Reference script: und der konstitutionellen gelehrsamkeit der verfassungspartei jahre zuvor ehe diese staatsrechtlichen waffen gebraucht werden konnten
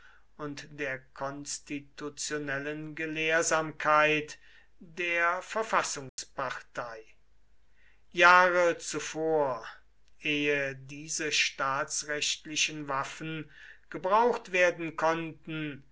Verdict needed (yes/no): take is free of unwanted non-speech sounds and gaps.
no